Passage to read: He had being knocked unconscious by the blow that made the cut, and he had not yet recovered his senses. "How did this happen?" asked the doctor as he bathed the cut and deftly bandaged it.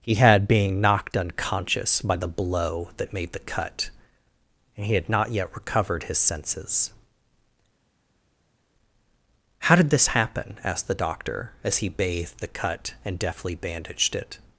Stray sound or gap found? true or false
false